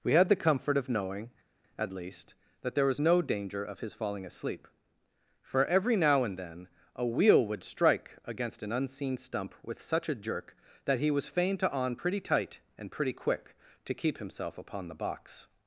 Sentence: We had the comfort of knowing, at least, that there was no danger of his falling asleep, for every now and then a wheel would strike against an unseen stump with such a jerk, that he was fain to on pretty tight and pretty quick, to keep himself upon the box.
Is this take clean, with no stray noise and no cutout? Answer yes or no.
yes